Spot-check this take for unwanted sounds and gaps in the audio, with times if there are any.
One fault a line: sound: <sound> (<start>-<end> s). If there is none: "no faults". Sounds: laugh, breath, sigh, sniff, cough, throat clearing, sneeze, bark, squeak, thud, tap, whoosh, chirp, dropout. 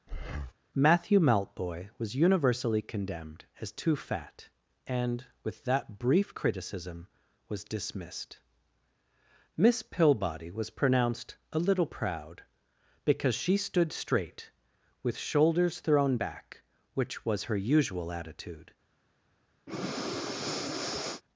sound: breath (0.1-0.5 s)
sound: breath (19.7-21.2 s)